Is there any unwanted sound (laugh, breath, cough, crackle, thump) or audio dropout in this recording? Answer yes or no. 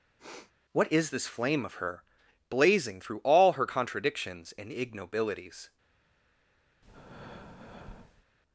yes